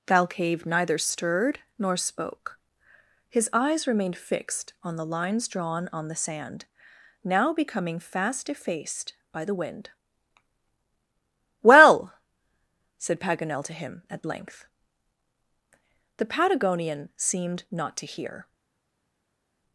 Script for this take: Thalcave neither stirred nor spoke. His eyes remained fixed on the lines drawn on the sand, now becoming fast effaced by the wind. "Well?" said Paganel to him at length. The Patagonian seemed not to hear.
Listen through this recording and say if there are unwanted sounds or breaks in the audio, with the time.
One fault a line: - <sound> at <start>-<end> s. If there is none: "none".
none